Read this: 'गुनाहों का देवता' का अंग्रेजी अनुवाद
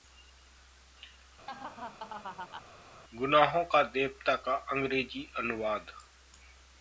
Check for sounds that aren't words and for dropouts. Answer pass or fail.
fail